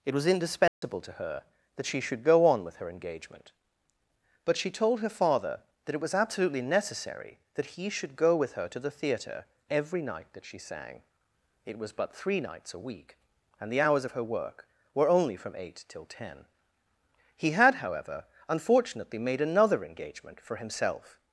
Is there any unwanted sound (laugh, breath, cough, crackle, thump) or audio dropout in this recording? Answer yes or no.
yes